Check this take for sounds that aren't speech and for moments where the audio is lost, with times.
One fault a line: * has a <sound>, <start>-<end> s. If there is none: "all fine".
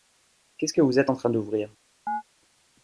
* has a chirp, 2.1-2.2 s